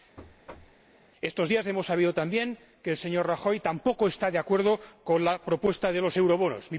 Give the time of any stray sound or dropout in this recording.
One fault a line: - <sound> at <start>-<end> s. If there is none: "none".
- thud at 0.2-0.8 s